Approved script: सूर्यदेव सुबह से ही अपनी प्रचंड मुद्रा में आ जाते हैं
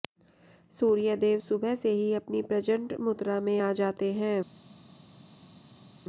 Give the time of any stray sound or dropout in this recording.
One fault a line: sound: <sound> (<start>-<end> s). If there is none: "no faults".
no faults